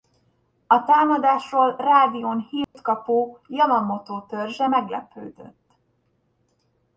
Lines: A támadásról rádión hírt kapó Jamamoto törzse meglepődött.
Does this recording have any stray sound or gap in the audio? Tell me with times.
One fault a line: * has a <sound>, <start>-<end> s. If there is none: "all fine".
* has a dropout, 2.6-2.7 s